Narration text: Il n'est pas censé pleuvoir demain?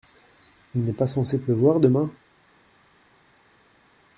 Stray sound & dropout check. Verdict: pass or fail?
pass